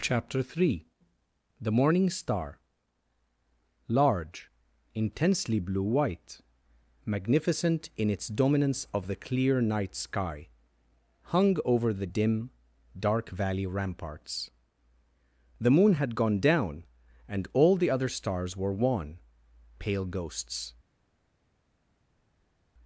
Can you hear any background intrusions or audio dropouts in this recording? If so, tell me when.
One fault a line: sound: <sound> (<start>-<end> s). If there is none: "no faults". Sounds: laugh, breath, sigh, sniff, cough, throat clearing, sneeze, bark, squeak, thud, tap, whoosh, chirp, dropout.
no faults